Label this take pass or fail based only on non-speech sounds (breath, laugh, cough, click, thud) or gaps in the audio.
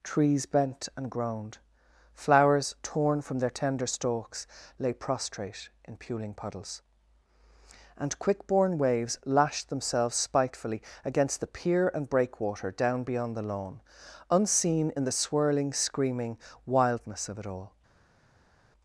pass